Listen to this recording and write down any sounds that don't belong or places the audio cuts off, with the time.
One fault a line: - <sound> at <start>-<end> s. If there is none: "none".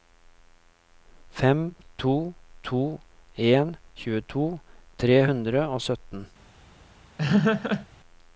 - laugh at 7.2-7.9 s